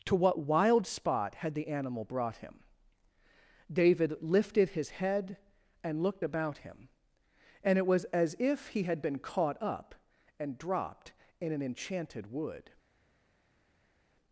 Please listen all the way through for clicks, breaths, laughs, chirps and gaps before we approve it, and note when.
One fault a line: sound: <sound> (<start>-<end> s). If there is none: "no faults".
no faults